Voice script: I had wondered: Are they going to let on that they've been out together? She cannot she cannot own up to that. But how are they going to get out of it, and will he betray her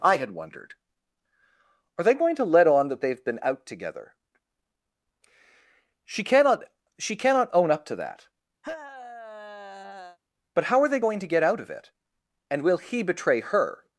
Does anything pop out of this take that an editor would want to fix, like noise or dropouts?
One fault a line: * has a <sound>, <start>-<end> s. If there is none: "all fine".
* has a sigh, 8.6-10.2 s